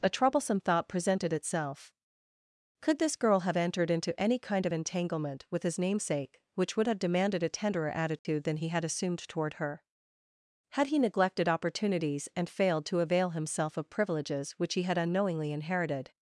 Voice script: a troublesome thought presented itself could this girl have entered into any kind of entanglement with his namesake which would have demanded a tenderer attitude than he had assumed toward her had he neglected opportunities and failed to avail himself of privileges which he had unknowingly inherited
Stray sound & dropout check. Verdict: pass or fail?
fail